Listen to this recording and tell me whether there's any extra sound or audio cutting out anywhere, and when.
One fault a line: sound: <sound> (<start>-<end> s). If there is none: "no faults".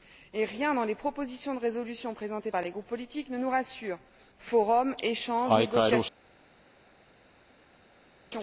no faults